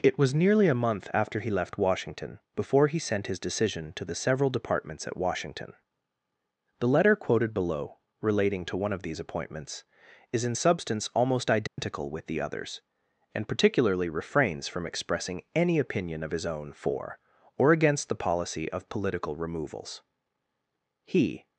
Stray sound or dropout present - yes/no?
yes